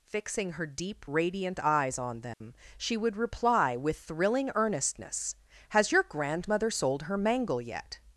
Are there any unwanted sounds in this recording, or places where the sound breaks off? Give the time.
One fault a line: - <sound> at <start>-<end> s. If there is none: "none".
- dropout at 2.3-2.4 s